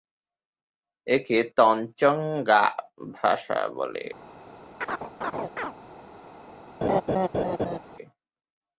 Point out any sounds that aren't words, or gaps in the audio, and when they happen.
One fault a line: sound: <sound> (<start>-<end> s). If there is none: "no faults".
sound: chirp (4.8-5.7 s)
sound: laugh (6.8-7.8 s)